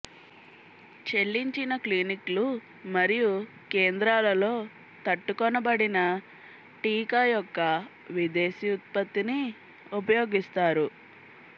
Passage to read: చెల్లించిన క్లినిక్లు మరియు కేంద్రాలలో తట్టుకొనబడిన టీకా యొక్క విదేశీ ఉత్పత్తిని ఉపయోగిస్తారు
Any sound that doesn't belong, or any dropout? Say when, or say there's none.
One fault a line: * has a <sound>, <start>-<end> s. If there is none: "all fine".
all fine